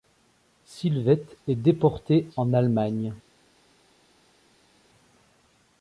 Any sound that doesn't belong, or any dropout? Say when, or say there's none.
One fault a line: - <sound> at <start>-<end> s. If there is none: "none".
none